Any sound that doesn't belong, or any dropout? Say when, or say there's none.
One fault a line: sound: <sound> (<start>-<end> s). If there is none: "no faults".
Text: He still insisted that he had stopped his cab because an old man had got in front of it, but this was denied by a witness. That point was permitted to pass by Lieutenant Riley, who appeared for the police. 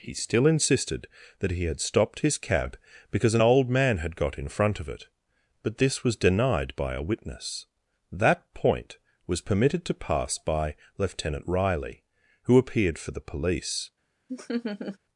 sound: laugh (14.3-15.0 s)